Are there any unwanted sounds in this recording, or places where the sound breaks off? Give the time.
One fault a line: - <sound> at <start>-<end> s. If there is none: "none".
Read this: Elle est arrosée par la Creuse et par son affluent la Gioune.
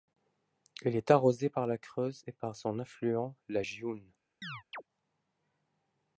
- chirp at 4.4-4.8 s